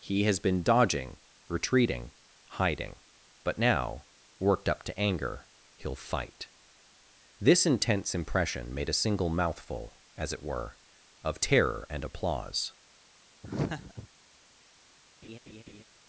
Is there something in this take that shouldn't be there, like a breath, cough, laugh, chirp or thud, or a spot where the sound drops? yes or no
yes